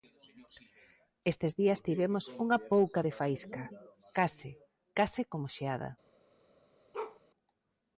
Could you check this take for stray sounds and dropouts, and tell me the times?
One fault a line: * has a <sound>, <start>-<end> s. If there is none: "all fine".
* has a bark, 6.9-7.2 s